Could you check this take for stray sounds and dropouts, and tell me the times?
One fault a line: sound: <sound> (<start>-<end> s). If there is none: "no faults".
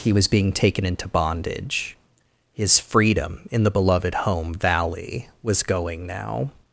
no faults